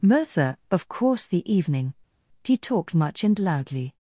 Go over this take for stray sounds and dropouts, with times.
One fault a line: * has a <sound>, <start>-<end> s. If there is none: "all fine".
all fine